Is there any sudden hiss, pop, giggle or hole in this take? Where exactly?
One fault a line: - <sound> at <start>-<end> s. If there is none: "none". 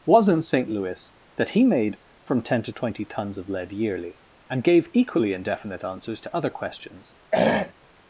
- throat clearing at 7.3-7.7 s